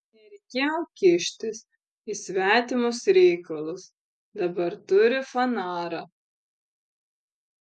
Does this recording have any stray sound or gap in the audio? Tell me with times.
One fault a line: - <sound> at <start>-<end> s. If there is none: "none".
none